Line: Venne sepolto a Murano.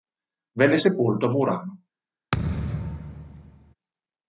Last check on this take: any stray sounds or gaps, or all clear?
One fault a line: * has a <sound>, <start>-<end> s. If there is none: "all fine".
* has a thud, 2.3-3.7 s